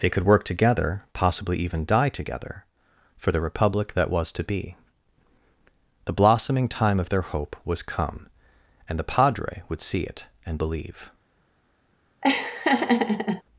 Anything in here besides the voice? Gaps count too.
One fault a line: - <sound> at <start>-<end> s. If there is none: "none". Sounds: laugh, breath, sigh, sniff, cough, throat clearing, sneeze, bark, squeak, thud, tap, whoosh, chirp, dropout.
- laugh at 12.2-13.4 s